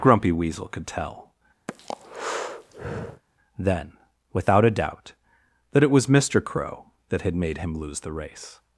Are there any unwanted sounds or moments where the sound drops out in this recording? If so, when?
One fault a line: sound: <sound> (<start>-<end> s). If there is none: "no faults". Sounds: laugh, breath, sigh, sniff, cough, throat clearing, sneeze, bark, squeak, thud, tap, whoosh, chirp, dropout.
sound: breath (1.7-3.2 s)